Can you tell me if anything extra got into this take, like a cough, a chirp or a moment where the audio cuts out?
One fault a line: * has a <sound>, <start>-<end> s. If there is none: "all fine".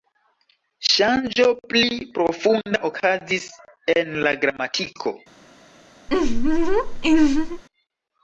* has a laugh, 6.1-7.6 s